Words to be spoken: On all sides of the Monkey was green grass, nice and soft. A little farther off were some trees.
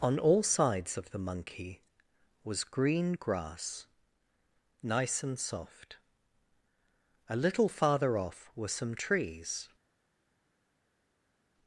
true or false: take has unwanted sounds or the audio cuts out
false